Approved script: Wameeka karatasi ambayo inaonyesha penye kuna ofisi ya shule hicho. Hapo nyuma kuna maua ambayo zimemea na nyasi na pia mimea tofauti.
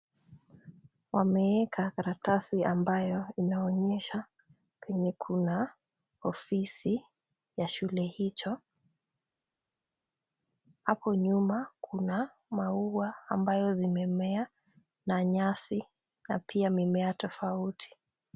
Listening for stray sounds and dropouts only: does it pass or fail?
pass